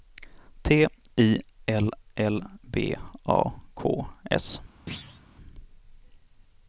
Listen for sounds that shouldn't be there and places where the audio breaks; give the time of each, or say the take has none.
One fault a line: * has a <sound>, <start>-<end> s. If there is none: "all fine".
* has a thud, 4.9-5.2 s